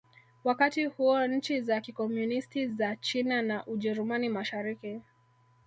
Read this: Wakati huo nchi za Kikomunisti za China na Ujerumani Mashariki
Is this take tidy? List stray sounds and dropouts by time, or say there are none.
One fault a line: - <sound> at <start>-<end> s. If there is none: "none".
none